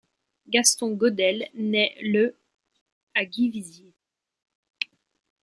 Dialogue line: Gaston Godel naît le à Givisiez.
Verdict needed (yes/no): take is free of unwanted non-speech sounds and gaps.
yes